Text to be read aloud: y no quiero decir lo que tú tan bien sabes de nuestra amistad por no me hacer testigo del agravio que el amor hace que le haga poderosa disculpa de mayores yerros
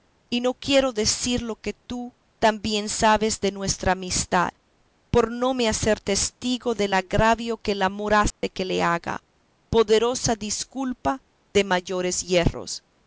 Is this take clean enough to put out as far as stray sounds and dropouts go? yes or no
no